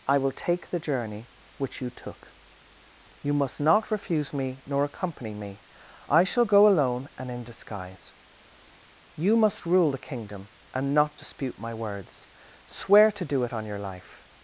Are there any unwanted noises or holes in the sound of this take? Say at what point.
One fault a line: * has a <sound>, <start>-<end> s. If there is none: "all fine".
all fine